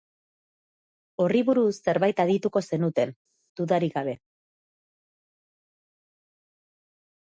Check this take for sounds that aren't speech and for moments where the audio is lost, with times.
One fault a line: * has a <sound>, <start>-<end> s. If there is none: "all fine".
all fine